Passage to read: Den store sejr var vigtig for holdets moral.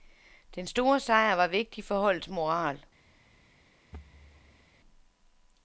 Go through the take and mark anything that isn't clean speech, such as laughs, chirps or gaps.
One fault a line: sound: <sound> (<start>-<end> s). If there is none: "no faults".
sound: thud (3.9-4.7 s)